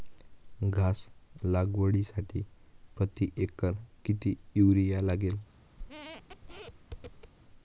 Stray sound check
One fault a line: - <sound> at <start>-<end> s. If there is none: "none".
- squeak at 5.8-7.3 s